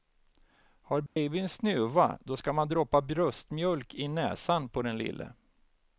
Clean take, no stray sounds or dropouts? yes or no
no